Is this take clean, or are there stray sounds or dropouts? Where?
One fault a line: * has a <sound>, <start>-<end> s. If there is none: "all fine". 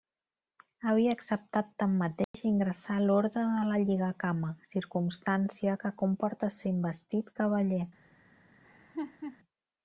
* has a dropout, 2.2-2.3 s
* has a laugh, 8.6-9.4 s